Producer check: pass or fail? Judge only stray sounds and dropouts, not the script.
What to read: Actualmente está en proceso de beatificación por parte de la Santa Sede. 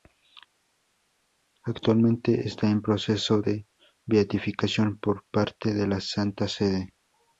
pass